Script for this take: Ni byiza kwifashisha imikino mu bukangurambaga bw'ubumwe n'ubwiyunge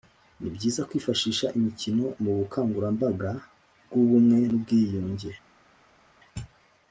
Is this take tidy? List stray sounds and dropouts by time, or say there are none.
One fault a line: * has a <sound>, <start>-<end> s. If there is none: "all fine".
all fine